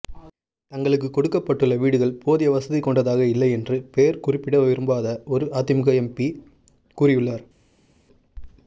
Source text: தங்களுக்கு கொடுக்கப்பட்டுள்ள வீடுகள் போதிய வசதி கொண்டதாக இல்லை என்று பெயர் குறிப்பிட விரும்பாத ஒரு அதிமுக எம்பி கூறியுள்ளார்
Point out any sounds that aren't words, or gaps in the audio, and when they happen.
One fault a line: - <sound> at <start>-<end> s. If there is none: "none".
none